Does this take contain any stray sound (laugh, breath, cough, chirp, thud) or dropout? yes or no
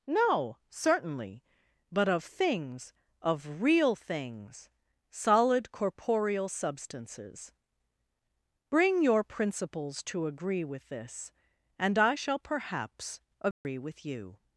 yes